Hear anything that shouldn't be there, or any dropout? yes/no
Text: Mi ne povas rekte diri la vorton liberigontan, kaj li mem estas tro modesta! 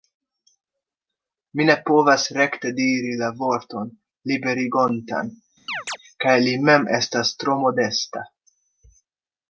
yes